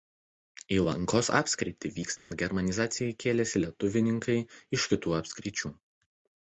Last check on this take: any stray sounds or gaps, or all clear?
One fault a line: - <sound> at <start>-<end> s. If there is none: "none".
- dropout at 2.2-2.3 s